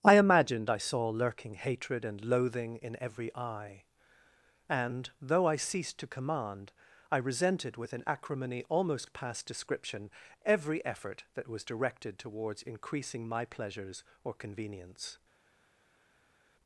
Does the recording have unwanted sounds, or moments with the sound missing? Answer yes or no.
no